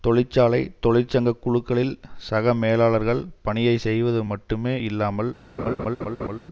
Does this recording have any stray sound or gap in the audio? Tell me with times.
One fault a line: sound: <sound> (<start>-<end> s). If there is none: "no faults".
sound: laugh (5.6-6.4 s)